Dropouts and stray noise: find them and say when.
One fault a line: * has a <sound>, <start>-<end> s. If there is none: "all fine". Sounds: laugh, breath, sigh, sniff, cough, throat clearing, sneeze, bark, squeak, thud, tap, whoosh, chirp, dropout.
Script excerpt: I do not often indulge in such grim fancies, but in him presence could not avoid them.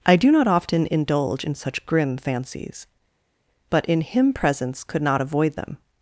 all fine